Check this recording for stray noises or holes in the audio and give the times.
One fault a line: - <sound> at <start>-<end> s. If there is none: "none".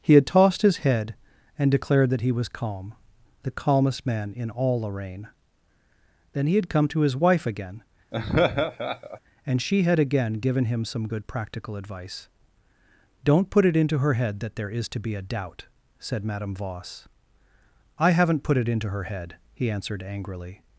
- laugh at 8.1-9.2 s